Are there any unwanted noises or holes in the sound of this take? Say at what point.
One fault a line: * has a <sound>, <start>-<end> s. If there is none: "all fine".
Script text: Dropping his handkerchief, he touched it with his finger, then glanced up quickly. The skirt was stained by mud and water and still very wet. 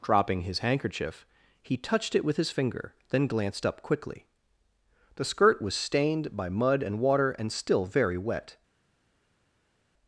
all fine